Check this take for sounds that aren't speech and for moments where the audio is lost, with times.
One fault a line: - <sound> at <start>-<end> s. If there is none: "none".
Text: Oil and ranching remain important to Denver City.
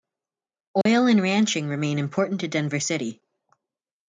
- dropout at 0.8-0.9 s